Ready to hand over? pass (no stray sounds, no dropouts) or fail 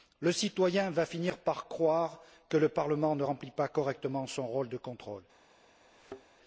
fail